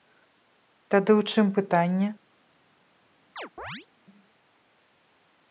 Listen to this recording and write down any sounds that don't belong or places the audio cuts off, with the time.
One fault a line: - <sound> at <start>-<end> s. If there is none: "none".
- chirp at 3.4-3.9 s